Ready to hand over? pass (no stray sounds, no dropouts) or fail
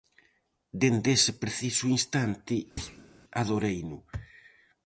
fail